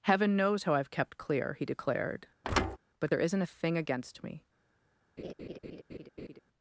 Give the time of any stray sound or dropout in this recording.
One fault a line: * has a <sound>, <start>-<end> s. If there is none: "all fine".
* has a thud, 2.4-2.8 s
* has a laugh, 5.2-6.4 s